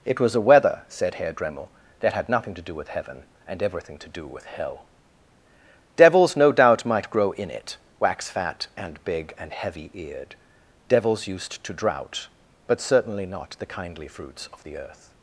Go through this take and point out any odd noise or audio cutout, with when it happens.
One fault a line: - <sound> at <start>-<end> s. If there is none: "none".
none